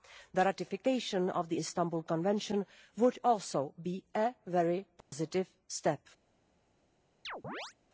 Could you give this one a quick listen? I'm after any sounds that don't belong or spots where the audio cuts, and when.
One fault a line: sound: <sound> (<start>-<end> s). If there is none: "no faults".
sound: dropout (5.0-5.1 s)
sound: chirp (7.2-7.7 s)